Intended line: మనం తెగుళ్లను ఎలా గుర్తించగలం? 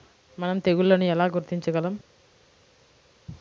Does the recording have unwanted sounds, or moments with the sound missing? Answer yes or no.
no